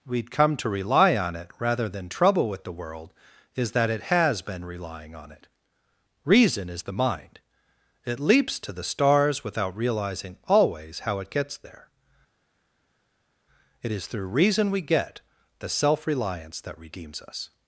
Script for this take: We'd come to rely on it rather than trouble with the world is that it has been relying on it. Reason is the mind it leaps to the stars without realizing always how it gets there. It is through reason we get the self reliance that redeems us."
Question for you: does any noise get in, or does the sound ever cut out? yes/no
no